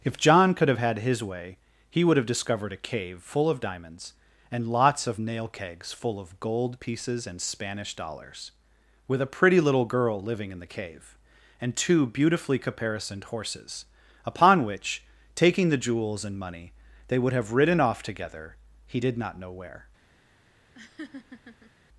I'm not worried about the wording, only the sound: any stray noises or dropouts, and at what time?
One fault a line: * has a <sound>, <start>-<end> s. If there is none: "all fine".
* has a laugh, 20.7-21.7 s